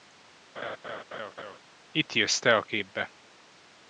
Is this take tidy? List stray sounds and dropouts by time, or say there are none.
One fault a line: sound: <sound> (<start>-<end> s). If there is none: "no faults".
sound: laugh (0.6-1.6 s)